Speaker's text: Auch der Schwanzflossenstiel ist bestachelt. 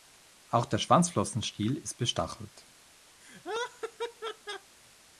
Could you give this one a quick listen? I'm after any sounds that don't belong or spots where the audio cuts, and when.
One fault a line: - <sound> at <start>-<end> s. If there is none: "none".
- laugh at 3.2-4.8 s